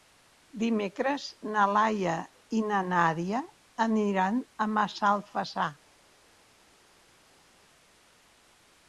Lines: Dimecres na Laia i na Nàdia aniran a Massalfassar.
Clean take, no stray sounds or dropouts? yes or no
yes